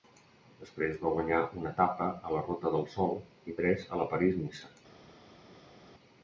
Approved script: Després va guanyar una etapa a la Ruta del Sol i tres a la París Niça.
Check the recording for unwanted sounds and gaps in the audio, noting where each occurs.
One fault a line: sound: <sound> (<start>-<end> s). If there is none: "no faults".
no faults